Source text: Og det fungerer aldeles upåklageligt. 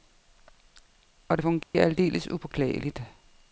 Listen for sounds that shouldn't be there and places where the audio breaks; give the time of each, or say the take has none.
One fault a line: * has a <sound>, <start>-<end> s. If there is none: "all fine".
* has a dropout, 1.6-1.7 s